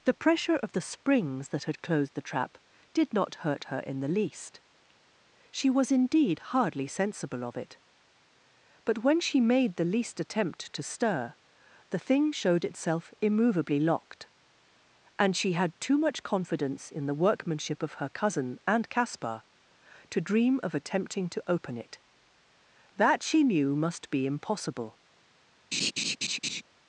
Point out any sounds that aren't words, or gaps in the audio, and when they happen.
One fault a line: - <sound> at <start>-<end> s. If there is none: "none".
- laugh at 25.7-26.6 s